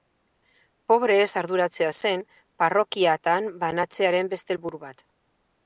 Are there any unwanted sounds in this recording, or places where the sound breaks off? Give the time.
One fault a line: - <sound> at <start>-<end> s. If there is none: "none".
none